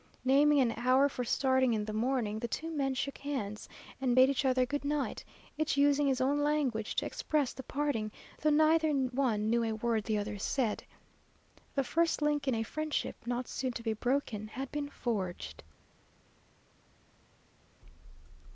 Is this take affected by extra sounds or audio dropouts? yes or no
no